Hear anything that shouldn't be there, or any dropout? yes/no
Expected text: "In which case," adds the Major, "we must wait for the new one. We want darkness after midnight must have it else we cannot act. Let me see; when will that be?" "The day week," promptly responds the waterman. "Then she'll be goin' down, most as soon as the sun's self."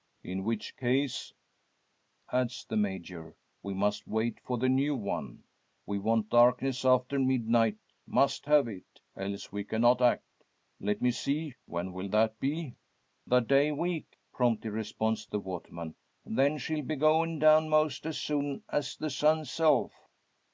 no